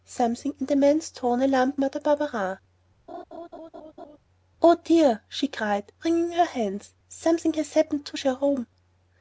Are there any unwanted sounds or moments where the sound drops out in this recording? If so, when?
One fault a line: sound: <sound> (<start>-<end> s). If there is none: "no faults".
sound: laugh (3.1-4.2 s)